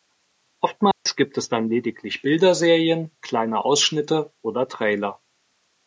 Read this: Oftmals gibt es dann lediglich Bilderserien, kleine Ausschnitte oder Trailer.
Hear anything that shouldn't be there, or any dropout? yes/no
yes